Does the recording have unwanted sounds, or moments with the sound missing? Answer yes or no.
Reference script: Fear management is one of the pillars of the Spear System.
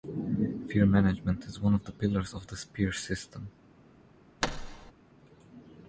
yes